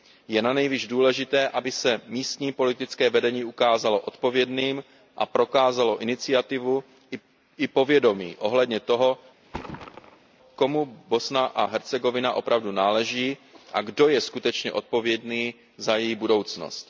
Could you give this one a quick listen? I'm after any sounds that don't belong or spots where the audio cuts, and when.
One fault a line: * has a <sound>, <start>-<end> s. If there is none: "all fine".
* has a thud, 9.4-10.4 s